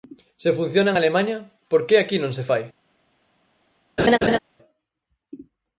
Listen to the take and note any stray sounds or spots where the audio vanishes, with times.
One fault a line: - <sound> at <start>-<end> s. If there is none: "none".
- laugh at 4.0-4.4 s